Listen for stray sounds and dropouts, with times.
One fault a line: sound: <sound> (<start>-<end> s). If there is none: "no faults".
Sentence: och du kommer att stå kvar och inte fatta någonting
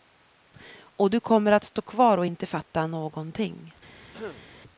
sound: throat clearing (4.1-4.4 s)